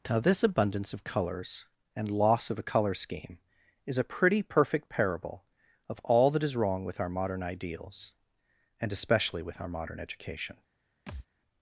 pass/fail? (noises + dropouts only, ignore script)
fail